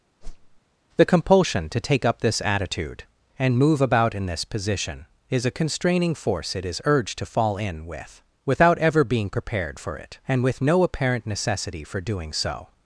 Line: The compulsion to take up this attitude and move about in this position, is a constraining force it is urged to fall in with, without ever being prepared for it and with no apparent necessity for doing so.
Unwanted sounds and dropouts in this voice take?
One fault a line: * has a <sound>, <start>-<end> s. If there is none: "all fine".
* has a whoosh, 0.2-0.6 s